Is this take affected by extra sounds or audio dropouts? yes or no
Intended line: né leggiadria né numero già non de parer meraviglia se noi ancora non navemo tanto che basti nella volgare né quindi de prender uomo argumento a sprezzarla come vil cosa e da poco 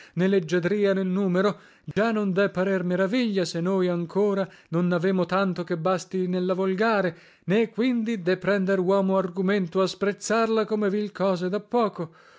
yes